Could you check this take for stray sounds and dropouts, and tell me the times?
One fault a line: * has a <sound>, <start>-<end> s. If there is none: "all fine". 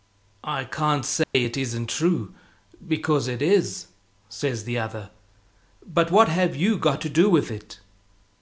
* has a dropout, 1.2-1.3 s